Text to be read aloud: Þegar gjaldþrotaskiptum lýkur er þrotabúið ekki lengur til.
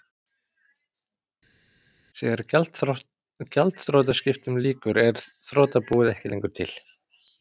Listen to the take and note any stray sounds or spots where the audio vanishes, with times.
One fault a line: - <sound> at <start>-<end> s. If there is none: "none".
none